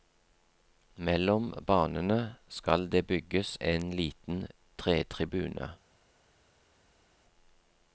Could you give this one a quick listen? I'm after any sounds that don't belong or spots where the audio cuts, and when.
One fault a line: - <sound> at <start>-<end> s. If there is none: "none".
none